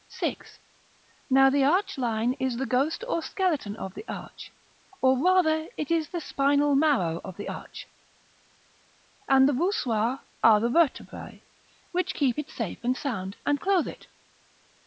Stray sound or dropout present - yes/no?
no